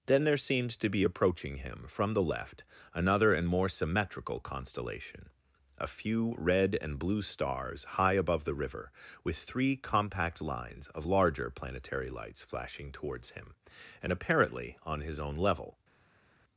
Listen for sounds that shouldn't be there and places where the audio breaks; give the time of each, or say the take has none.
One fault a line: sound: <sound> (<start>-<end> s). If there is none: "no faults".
no faults